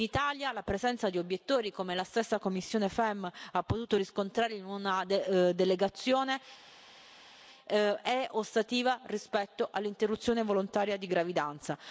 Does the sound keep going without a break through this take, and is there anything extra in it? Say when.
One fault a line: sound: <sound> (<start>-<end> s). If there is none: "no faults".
no faults